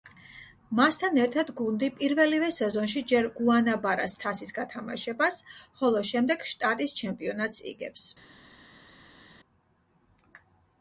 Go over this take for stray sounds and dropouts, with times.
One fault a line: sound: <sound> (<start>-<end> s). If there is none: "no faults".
no faults